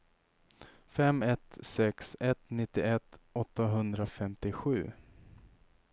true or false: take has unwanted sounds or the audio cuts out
false